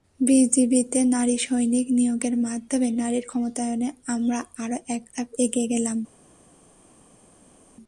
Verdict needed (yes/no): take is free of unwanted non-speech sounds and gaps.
yes